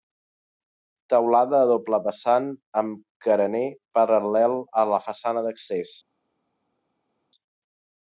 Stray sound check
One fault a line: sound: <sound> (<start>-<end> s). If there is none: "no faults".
no faults